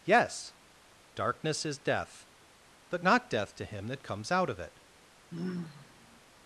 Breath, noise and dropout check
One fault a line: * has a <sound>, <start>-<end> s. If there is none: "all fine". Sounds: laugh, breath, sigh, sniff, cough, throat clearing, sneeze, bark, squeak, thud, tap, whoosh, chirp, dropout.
* has a sigh, 5.3-6.2 s